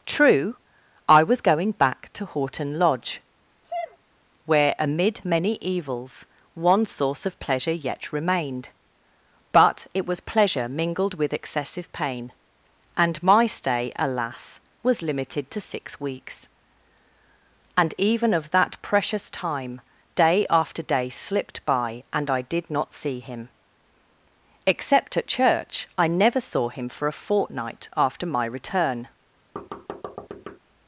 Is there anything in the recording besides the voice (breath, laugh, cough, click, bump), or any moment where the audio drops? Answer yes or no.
yes